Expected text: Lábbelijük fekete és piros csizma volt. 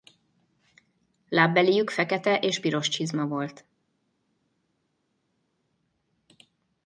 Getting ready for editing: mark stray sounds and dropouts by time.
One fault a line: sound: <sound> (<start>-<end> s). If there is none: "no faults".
no faults